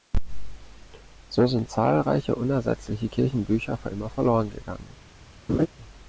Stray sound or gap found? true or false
true